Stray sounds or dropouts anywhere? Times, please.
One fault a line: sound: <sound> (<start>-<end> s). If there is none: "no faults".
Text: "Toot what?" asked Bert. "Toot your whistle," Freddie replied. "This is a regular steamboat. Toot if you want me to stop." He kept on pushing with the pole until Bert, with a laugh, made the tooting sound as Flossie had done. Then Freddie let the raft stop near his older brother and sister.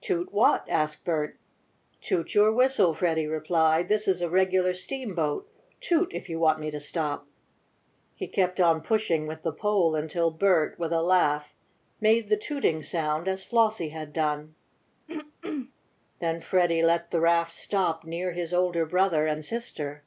sound: throat clearing (15.1-15.7 s)